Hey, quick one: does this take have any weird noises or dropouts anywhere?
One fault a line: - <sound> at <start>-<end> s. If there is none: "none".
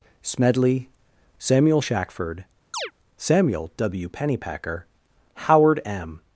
- chirp at 2.7-2.9 s